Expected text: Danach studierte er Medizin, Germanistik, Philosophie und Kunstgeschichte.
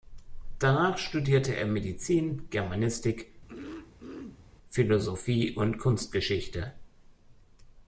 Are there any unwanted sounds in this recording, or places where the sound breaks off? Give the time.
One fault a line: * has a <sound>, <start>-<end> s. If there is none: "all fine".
* has a throat clearing, 3.5-4.4 s